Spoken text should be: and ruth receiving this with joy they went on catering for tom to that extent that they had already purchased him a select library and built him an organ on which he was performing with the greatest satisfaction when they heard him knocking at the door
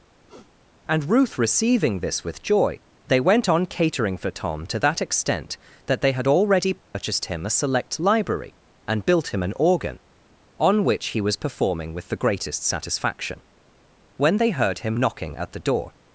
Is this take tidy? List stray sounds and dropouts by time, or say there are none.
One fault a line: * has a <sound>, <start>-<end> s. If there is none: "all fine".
* has a sniff, 0.2-0.5 s
* has a dropout, 6.8-6.9 s